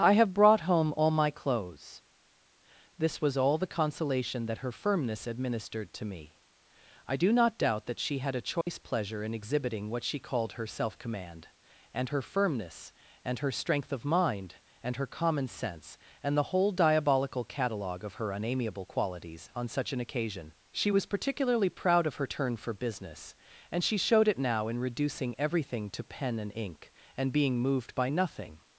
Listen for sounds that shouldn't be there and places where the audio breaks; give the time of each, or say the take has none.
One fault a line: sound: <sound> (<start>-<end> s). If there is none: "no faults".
sound: dropout (8.6-8.7 s)